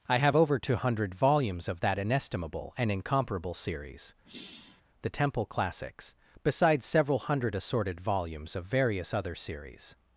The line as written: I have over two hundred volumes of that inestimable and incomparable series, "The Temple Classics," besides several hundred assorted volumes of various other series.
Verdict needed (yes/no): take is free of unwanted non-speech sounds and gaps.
no